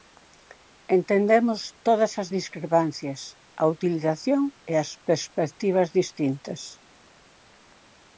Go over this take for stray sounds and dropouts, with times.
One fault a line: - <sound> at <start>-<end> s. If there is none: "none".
none